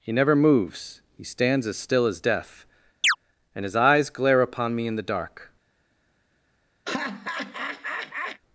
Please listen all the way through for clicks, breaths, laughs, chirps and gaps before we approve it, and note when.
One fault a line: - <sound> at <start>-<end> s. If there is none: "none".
- chirp at 3.0-3.2 s
- laugh at 6.9-8.4 s